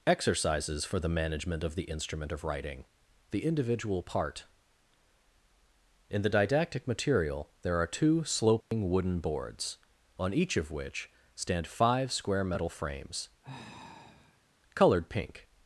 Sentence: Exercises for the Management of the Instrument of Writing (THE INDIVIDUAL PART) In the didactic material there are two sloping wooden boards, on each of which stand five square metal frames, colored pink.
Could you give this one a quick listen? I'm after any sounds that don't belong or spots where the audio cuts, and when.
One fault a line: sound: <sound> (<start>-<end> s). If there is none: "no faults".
sound: dropout (8.6-8.7 s)
sound: sigh (13.4-14.5 s)